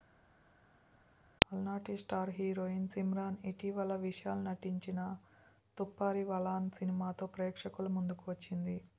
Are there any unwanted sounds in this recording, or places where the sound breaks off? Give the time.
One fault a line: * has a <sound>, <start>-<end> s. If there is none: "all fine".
all fine